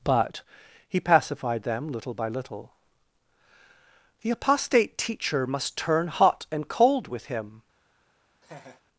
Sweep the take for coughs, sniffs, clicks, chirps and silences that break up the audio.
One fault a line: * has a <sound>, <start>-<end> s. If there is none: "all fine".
* has a laugh, 8.4-8.8 s